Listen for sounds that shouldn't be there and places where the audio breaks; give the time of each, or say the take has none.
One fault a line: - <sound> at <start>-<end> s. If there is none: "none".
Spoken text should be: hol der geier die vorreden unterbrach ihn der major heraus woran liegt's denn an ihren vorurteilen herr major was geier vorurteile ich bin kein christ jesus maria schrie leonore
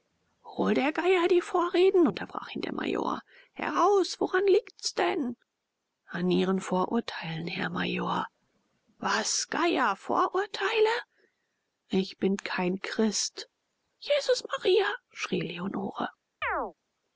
- chirp at 16.4-16.7 s